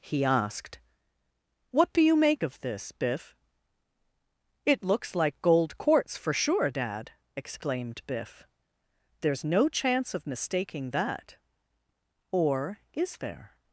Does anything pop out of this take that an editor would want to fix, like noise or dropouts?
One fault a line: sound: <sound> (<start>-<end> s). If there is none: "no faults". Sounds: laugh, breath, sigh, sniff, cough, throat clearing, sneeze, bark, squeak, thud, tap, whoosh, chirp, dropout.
no faults